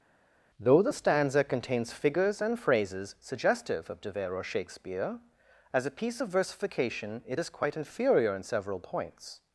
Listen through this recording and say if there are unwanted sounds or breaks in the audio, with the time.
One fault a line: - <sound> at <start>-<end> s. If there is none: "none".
none